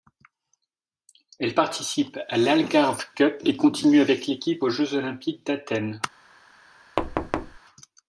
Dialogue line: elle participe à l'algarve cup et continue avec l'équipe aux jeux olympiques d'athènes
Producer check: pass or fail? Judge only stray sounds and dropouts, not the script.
fail